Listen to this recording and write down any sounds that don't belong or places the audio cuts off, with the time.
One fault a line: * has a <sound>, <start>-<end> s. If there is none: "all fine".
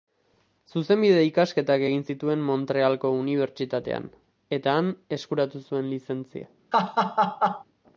* has a laugh, 6.7-7.6 s